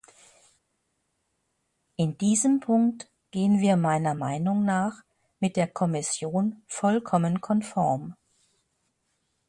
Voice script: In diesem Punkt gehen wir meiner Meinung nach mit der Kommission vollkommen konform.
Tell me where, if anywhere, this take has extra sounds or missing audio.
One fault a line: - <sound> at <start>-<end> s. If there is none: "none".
none